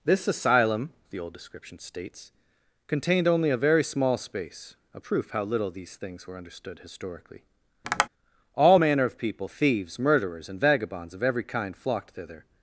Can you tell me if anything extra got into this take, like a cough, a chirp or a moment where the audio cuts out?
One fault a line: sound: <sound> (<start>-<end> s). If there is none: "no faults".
sound: tap (7.8-8.1 s)